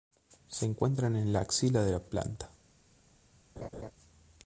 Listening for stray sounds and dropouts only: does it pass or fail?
fail